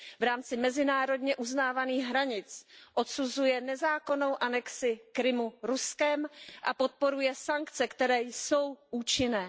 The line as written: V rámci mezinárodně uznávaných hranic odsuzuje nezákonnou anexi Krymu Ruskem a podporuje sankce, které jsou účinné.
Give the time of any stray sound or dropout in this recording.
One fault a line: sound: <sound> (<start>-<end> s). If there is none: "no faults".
no faults